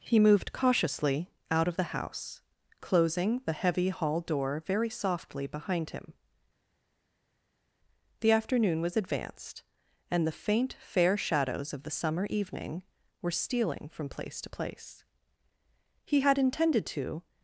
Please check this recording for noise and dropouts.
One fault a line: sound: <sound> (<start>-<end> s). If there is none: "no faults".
no faults